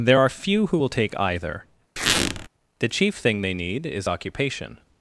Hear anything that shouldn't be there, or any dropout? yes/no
yes